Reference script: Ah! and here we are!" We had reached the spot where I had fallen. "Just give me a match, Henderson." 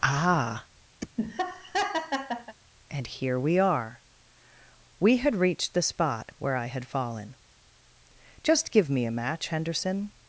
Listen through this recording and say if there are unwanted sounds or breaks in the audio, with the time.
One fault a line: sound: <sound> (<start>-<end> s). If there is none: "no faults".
sound: laugh (1.0-2.6 s)